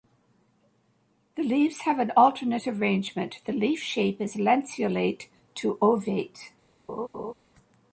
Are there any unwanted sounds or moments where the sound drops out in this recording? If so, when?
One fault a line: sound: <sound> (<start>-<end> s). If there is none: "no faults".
sound: laugh (6.9-7.3 s)